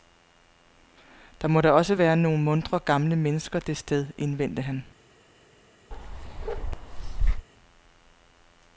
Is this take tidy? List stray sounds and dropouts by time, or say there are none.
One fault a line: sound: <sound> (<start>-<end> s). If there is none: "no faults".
sound: bark (5.9-7.5 s)